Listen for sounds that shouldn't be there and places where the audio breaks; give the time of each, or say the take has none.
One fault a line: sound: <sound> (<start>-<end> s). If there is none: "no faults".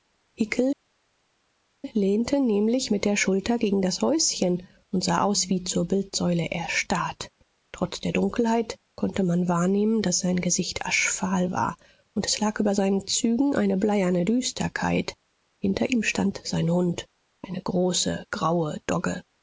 no faults